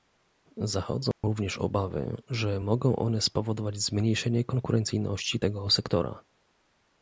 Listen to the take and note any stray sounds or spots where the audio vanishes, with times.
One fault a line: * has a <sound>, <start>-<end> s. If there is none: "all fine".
* has a dropout, 1.1-1.2 s